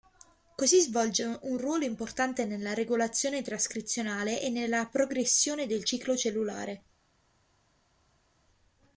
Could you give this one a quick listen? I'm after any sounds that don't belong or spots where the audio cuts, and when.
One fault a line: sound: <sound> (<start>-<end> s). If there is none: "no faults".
no faults